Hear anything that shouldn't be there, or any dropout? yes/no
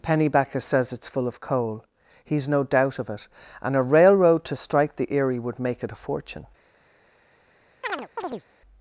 yes